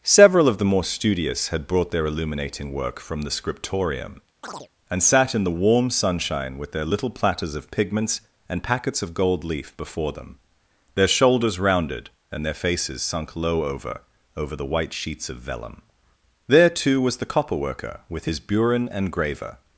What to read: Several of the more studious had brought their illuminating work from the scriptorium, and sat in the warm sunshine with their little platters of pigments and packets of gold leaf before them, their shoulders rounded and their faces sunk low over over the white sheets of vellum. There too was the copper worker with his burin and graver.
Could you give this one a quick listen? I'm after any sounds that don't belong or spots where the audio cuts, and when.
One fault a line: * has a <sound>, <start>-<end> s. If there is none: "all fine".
* has a chirp, 4.4-4.7 s